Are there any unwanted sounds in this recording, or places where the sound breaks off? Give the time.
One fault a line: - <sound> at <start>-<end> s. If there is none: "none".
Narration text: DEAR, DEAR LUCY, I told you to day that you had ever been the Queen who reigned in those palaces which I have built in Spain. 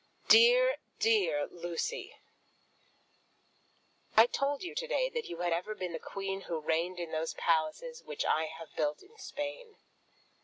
none